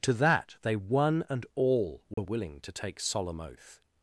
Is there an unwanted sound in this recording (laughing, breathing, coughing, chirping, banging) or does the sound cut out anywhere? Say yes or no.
yes